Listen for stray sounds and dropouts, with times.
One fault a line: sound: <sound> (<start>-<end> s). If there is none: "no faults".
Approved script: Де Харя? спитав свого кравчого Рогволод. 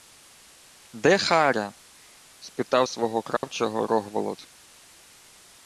sound: dropout (3.4-3.4 s)